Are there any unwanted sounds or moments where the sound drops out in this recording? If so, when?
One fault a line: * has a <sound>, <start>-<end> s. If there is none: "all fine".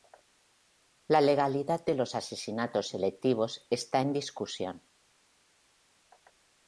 all fine